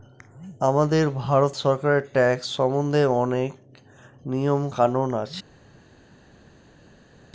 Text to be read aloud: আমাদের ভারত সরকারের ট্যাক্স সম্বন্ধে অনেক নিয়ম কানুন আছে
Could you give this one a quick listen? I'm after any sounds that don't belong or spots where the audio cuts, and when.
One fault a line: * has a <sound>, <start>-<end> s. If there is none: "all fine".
all fine